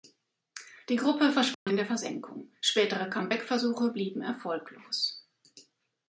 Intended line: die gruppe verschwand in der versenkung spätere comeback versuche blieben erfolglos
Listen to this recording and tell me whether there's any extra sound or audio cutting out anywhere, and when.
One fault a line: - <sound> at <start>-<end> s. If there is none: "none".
- dropout at 1.5-1.7 s